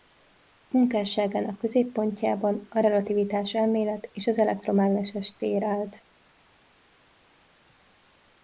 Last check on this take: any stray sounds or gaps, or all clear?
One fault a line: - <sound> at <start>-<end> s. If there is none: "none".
none